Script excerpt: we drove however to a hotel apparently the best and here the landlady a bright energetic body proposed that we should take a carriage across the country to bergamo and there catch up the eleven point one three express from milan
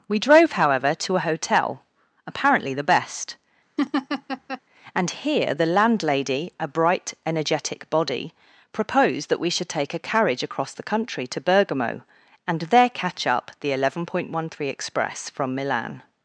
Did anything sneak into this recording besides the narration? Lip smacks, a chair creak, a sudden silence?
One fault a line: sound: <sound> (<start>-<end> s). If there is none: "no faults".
sound: laugh (3.8-4.6 s)